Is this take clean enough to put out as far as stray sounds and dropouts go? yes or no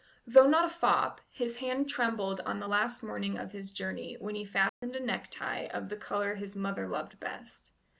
no